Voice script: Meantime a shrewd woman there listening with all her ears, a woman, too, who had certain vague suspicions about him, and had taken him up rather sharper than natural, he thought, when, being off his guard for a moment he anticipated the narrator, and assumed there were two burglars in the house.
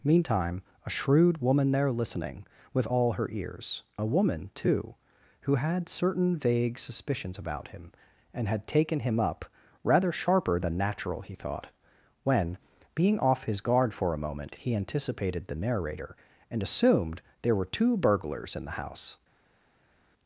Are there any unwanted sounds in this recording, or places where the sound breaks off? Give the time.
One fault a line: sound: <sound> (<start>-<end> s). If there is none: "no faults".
no faults